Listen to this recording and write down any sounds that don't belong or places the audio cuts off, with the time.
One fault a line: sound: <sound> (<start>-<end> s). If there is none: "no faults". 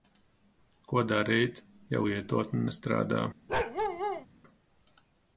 sound: bark (3.5-4.3 s)